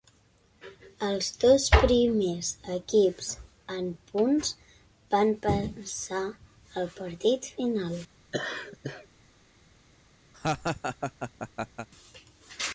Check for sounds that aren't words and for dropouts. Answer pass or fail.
fail